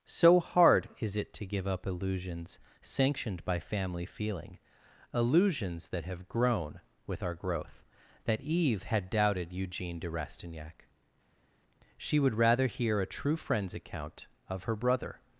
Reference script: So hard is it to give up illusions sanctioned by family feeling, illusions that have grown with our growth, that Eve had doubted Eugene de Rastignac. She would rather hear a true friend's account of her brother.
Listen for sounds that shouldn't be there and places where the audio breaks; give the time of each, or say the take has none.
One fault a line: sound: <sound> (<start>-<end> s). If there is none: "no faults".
no faults